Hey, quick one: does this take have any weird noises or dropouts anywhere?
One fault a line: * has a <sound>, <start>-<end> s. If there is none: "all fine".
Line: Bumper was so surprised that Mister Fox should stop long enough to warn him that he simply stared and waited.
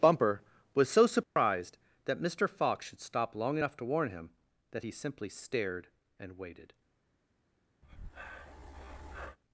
* has a dropout, 1.2-1.4 s
* has a breath, 7.8-9.4 s